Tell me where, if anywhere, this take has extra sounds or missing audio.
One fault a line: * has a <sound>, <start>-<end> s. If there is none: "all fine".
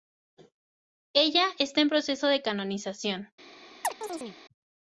* has a chirp, 3.8-4.4 s